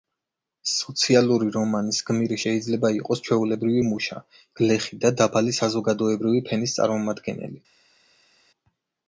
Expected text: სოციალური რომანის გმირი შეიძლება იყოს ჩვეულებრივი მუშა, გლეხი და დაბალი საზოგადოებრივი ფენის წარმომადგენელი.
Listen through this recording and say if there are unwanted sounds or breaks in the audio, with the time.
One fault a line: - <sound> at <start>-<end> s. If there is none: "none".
none